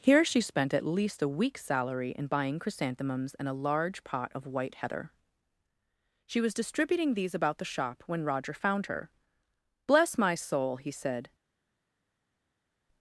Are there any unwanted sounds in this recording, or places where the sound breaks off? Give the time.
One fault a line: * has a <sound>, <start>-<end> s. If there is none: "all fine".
all fine